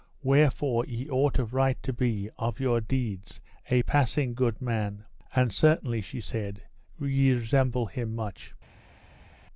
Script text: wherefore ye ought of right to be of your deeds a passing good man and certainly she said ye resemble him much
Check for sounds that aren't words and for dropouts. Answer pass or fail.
pass